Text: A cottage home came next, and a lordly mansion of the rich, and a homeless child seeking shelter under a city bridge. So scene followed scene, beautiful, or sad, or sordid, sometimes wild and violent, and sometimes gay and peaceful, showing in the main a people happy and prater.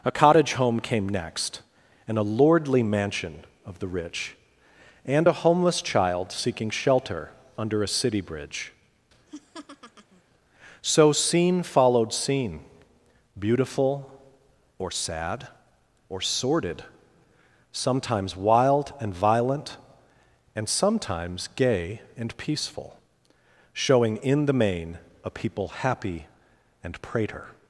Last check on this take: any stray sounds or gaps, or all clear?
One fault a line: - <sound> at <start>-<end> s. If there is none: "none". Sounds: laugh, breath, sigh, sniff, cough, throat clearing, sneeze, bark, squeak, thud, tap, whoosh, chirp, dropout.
- laugh at 9.3-10.2 s